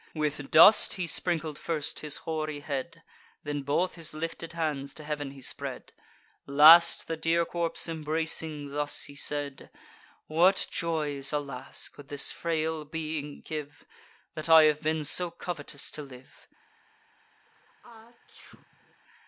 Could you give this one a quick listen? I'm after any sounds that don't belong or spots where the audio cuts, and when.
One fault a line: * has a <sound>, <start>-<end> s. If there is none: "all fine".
* has a sneeze, 17.5-19.0 s